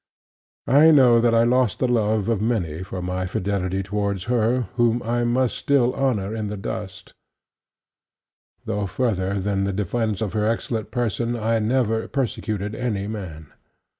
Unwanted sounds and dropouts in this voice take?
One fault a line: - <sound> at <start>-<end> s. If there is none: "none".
none